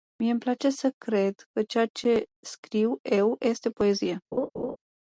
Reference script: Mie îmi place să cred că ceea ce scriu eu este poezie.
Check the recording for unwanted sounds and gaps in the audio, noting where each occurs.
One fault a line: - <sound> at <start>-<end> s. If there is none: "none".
- laugh at 4.3-4.8 s